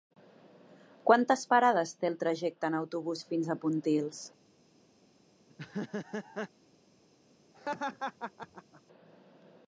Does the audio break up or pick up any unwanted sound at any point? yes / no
yes